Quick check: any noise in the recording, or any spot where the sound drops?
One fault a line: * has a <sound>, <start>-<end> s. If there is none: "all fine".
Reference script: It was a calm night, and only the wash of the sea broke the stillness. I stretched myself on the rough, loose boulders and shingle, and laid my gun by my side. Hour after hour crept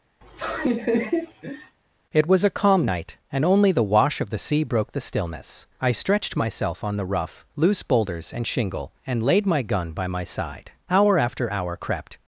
* has a laugh, 0.2-1.8 s